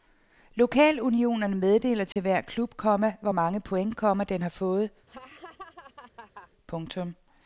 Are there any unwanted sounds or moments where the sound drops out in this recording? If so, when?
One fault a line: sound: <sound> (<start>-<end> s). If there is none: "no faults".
sound: dropout (2.1-2.2 s)
sound: laugh (5.1-6.5 s)